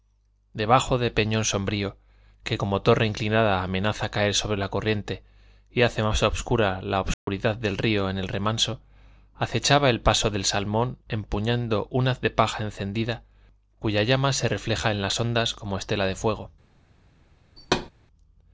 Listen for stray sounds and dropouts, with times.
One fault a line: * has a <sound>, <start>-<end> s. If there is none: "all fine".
* has a dropout, 7.1-7.3 s
* has a thud, 17.6-17.9 s